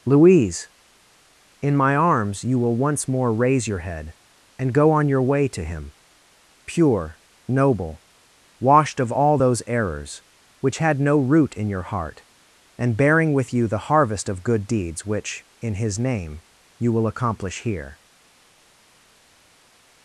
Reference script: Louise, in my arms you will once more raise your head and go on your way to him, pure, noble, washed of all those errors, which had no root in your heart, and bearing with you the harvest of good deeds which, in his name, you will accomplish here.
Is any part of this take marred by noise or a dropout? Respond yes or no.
no